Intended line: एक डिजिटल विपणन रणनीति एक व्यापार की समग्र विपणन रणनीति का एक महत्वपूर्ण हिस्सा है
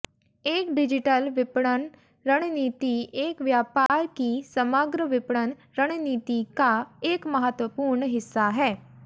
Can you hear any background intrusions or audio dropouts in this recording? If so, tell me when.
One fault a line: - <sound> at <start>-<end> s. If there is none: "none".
- dropout at 3.9-3.9 s